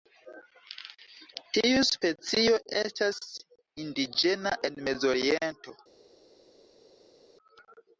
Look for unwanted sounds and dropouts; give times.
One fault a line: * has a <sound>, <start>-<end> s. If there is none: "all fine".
all fine